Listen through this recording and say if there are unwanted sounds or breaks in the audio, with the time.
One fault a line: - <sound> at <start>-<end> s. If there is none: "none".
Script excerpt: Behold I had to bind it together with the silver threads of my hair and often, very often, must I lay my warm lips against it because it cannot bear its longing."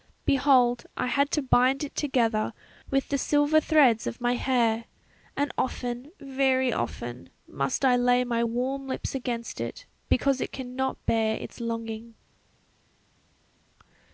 none